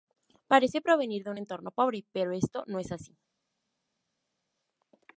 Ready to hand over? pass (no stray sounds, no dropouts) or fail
pass